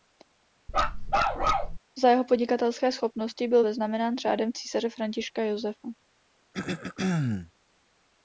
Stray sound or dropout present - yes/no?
yes